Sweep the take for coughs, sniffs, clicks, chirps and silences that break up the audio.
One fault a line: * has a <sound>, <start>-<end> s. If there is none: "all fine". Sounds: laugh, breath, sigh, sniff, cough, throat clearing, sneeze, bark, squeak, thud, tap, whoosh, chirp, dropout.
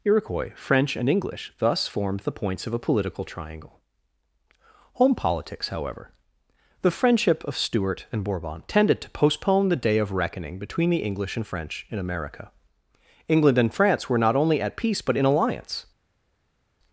all fine